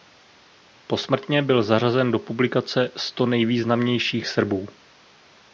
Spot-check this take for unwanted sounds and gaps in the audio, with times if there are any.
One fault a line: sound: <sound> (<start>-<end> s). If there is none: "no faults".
no faults